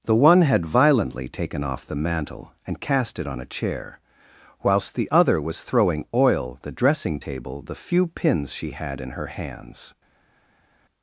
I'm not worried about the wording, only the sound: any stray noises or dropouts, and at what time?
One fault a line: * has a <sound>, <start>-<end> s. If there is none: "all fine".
all fine